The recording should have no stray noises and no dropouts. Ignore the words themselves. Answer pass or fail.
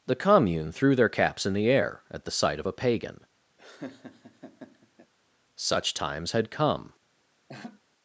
fail